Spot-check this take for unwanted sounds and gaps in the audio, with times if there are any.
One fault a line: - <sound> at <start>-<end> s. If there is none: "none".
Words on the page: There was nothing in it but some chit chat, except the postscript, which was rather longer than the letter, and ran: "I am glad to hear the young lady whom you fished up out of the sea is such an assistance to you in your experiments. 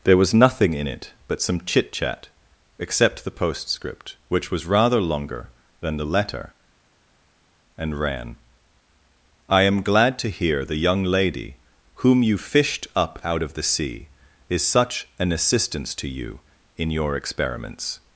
none